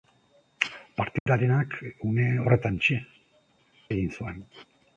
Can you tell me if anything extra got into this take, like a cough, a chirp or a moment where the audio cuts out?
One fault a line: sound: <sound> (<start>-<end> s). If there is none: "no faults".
sound: dropout (1.2-1.3 s)